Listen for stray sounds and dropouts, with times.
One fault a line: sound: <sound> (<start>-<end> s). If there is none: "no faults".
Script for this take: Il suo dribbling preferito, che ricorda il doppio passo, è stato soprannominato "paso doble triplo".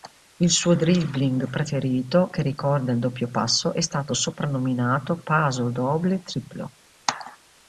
no faults